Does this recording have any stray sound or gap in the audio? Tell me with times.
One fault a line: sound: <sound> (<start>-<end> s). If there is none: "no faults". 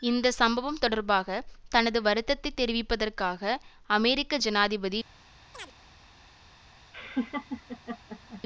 sound: chirp (5.5-5.7 s)
sound: laugh (6.9-8.4 s)